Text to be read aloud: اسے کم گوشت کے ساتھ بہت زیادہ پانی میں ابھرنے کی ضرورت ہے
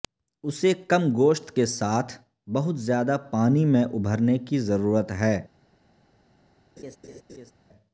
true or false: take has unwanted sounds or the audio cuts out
true